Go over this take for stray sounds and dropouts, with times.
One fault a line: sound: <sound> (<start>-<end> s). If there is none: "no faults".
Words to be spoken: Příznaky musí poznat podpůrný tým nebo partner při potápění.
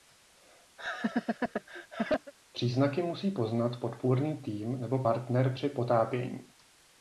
sound: laugh (0.8-2.3 s)